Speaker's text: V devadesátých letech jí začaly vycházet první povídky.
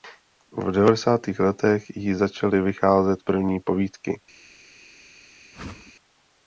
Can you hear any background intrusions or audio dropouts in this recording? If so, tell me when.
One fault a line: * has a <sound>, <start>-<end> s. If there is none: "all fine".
* has a whoosh, 5.5-5.9 s